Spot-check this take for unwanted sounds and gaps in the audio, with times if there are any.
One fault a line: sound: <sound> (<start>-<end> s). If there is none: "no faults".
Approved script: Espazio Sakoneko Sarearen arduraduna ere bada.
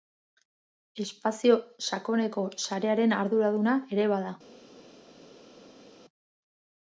no faults